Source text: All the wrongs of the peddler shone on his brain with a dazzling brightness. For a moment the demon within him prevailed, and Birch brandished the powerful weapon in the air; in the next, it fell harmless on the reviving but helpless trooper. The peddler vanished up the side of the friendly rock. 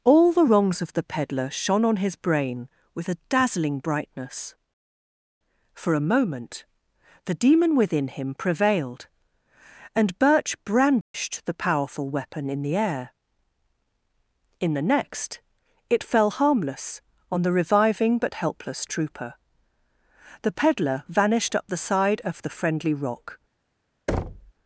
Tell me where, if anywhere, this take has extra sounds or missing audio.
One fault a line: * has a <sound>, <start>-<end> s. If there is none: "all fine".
* has a dropout, 11.0-11.1 s
* has a thud, 24.1-24.5 s